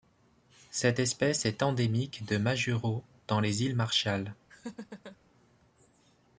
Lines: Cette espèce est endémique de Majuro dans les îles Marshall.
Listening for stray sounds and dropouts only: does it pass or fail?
fail